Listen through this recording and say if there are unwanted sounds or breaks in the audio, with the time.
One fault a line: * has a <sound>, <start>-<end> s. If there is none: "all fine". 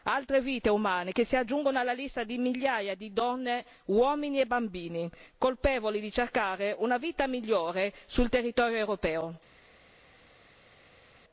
all fine